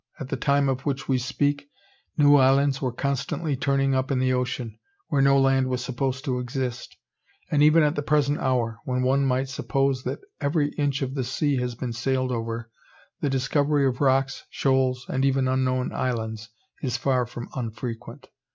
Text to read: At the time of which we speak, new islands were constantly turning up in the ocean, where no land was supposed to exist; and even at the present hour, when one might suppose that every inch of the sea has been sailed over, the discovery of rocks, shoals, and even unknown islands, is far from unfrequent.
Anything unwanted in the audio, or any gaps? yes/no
no